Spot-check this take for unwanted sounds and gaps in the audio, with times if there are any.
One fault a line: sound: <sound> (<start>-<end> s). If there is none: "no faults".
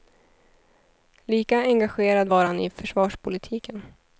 no faults